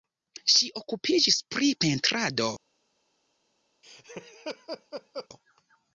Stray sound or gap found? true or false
true